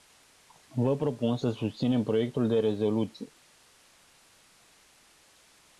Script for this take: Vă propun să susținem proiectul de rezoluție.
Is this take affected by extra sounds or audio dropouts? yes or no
no